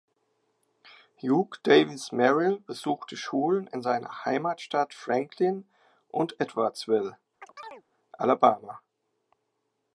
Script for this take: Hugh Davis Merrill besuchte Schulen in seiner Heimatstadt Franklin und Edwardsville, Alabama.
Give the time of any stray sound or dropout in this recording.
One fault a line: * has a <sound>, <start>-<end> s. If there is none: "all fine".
* has a chirp, 7.4-7.8 s